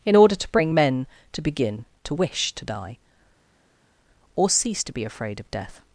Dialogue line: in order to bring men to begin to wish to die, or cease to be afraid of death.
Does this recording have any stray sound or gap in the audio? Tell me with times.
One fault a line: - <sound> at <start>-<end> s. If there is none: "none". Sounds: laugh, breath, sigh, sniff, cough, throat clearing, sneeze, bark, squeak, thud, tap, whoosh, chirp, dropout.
none